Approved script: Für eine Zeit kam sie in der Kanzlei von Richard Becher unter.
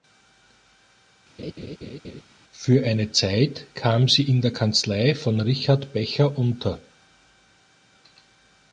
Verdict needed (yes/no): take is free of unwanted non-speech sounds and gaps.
no